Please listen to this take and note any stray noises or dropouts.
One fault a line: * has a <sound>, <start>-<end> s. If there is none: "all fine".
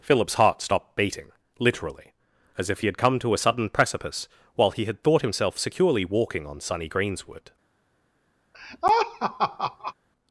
* has a laugh, 8.5-9.9 s